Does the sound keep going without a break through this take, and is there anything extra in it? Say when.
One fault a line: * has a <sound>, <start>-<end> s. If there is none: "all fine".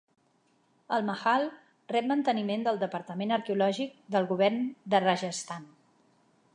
all fine